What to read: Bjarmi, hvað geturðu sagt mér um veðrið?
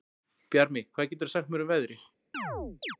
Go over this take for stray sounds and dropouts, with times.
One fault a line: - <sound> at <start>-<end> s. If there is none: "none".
- chirp at 2.3-3.0 s